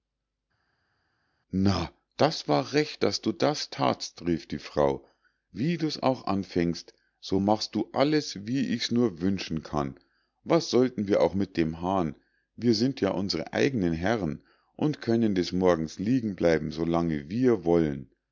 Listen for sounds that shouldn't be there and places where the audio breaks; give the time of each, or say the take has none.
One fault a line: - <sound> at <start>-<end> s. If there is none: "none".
none